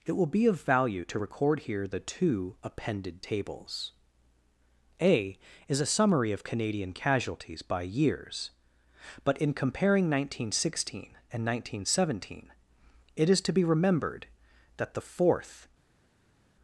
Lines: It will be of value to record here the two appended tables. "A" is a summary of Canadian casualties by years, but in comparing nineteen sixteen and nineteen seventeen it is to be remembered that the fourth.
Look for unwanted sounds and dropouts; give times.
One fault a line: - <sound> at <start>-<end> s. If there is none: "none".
none